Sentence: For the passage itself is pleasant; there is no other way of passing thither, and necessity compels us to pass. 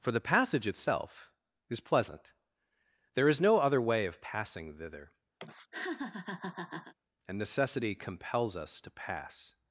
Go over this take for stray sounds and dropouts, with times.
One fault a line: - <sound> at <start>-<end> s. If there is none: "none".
- laugh at 5.4-6.9 s